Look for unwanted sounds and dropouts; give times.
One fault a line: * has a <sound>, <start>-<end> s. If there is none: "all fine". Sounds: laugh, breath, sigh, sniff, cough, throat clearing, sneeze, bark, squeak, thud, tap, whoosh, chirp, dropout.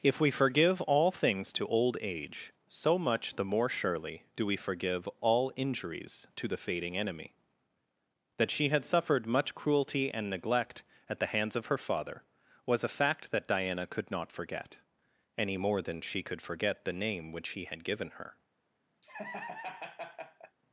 * has a laugh, 19.0-20.6 s